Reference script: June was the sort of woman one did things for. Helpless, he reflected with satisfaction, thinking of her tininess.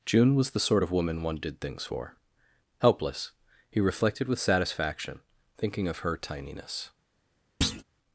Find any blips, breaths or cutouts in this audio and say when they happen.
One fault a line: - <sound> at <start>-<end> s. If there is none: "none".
- thud at 7.6-7.8 s